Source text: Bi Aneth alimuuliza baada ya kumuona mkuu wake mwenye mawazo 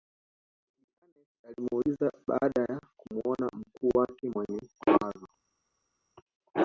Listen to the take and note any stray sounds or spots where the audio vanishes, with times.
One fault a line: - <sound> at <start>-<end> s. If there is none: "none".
none